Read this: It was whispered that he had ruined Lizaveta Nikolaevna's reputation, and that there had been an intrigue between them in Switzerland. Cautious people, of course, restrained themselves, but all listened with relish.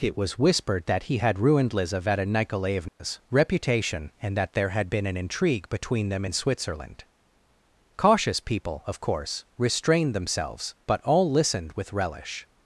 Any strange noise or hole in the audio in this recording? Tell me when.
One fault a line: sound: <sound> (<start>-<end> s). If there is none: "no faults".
sound: dropout (2.9-3.0 s)